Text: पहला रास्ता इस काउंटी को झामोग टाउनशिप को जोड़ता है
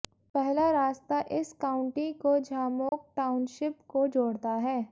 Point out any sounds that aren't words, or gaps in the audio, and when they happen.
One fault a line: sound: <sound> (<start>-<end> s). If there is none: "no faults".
sound: dropout (2.9-2.9 s)